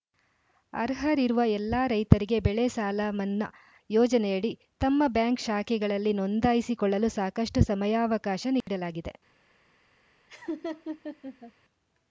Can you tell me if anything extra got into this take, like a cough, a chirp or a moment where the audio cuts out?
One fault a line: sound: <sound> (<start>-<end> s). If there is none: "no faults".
sound: dropout (8.6-8.7 s)
sound: laugh (10.3-11.5 s)